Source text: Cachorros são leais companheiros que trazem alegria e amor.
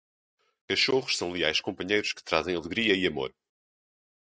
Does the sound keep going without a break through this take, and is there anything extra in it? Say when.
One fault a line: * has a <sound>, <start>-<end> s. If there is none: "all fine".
all fine